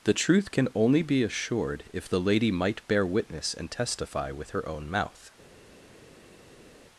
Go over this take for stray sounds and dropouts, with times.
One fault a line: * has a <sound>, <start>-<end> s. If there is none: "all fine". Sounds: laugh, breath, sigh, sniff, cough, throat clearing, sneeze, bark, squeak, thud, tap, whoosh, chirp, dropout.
all fine